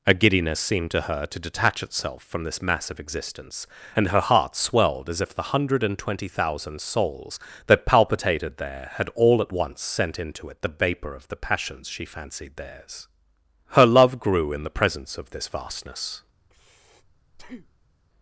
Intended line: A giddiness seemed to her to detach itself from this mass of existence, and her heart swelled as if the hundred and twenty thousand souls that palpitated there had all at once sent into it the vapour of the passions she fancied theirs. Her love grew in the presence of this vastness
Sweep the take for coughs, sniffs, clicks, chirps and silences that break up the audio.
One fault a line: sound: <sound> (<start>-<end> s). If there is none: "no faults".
sound: breath (16.4-18.0 s)